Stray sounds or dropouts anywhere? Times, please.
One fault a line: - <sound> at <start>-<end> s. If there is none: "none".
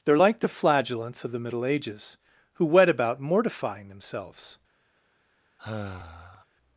- sigh at 5.6-6.4 s